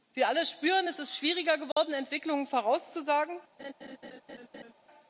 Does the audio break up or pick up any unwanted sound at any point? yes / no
yes